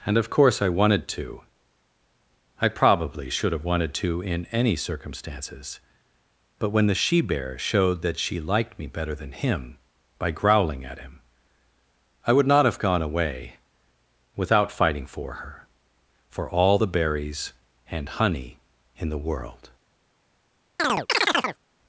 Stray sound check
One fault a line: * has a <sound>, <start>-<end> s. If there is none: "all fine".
* has a chirp, 20.8-21.6 s